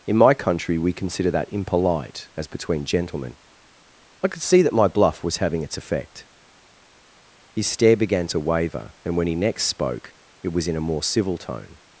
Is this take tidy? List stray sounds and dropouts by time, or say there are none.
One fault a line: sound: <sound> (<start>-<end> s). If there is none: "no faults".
no faults